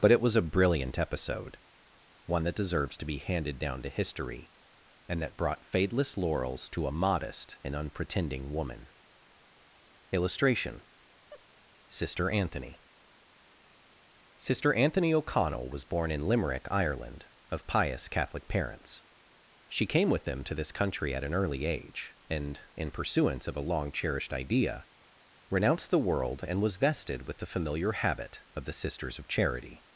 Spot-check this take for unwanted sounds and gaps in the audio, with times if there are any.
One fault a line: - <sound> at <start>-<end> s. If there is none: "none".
- laugh at 11.3-11.5 s